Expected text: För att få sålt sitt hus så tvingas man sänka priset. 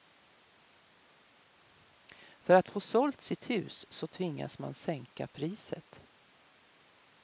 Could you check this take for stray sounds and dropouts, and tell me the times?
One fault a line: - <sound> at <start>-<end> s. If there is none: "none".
none